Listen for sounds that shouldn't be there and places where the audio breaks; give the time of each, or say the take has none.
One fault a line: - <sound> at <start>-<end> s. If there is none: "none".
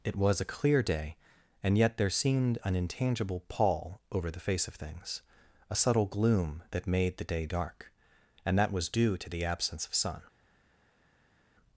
none